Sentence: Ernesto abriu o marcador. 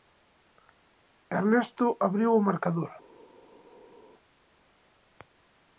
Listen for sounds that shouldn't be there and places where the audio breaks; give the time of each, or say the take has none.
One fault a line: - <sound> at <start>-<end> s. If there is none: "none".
none